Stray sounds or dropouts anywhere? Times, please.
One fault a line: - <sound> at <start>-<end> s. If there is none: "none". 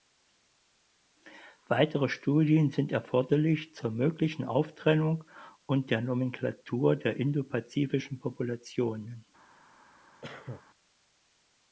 - cough at 10.2-10.6 s